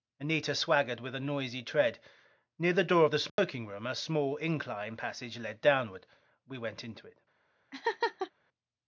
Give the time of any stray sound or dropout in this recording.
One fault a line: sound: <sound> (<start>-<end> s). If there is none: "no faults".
sound: dropout (3.3-3.4 s)
sound: laugh (7.7-8.3 s)